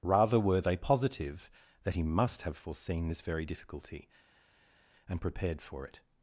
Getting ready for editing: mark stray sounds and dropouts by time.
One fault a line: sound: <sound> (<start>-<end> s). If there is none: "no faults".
no faults